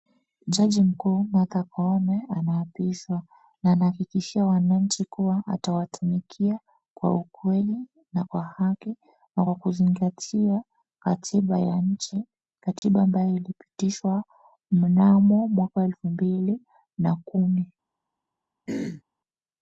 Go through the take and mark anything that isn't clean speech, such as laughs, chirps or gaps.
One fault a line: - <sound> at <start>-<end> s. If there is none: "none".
- dropout at 12.8-12.8 s
- throat clearing at 18.7-19.0 s